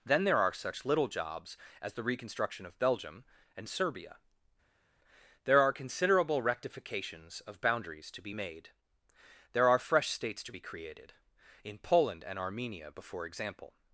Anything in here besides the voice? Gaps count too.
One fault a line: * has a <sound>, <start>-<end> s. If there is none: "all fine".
all fine